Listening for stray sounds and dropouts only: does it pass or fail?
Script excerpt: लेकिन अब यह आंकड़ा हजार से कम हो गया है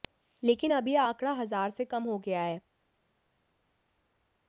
pass